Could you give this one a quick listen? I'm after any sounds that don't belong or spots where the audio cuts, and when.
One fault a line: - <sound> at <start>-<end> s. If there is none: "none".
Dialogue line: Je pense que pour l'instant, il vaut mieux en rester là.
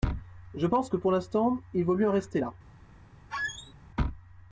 - squeak at 3.3-3.7 s